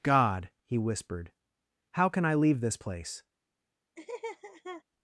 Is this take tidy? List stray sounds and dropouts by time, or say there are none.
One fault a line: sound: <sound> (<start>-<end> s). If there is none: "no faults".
sound: laugh (4.0-4.8 s)